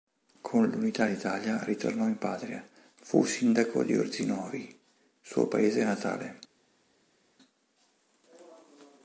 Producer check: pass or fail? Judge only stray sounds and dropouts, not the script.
pass